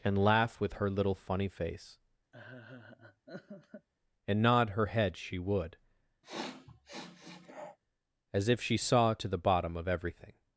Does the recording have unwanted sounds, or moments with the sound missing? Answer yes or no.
yes